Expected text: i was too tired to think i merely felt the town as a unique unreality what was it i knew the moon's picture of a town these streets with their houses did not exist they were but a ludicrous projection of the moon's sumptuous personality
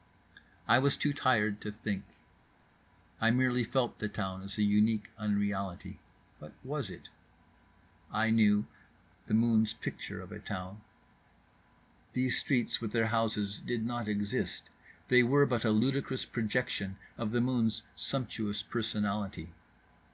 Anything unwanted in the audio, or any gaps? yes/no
no